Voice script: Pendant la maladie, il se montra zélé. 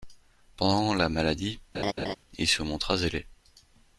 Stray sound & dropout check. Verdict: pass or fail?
fail